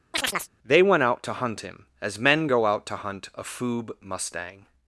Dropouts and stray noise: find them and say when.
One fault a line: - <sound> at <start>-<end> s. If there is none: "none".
- chirp at 0.1-0.5 s